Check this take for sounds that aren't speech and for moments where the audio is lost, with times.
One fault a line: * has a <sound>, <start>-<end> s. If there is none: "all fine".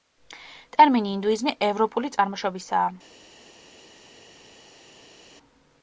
all fine